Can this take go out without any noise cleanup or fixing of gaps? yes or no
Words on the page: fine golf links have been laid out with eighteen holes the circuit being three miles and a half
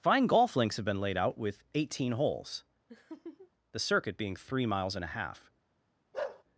no